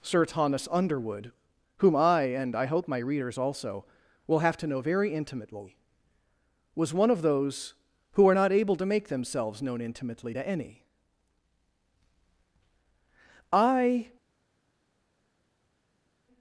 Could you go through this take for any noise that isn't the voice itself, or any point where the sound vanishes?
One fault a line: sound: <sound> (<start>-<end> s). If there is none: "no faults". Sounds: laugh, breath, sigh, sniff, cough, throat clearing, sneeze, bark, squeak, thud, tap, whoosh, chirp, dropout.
no faults